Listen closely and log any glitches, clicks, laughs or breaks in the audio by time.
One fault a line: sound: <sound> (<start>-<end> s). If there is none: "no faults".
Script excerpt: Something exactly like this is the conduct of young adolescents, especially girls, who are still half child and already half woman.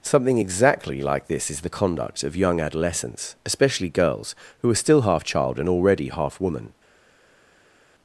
no faults